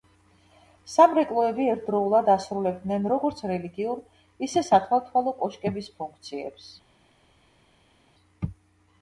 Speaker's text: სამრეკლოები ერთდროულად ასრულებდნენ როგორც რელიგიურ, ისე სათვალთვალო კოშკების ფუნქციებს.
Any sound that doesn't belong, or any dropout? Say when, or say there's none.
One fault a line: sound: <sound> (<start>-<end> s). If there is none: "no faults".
no faults